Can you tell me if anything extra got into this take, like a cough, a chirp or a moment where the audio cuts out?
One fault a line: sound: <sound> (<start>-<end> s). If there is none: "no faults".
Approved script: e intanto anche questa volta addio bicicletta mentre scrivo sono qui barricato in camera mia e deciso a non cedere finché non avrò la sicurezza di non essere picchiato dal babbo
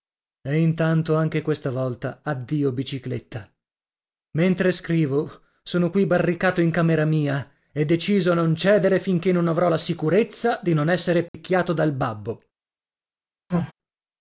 sound: dropout (11.3-11.3 s)
sound: sneeze (13.5-13.7 s)